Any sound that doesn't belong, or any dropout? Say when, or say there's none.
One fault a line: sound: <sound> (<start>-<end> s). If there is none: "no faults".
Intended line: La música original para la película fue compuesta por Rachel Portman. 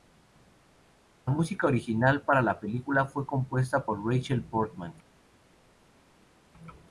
no faults